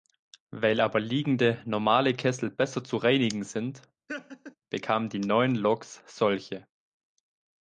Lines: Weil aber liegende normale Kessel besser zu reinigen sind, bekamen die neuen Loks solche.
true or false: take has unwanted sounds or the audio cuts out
true